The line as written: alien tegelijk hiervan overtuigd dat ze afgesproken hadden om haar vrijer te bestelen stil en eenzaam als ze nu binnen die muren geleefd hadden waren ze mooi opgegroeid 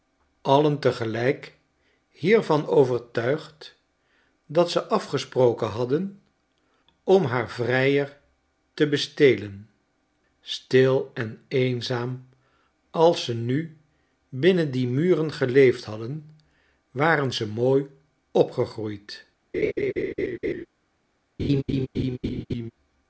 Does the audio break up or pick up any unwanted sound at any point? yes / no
yes